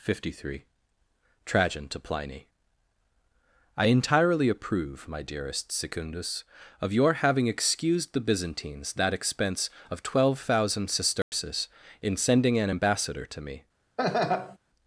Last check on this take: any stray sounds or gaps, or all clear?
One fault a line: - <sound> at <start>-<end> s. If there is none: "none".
- dropout at 11.2-11.3 s
- laugh at 14.0-14.6 s